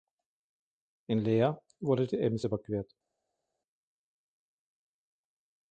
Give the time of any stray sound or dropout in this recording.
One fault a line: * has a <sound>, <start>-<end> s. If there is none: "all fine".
all fine